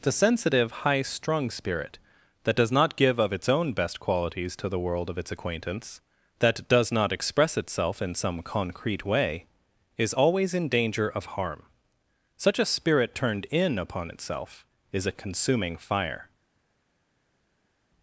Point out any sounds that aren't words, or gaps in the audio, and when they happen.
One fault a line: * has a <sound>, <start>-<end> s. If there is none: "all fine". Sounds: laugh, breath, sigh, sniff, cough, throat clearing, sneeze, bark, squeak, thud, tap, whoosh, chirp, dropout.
all fine